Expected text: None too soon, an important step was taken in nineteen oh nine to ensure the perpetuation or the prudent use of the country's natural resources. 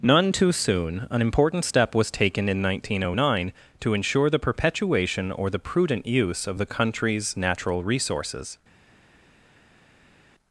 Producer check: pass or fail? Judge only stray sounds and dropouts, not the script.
pass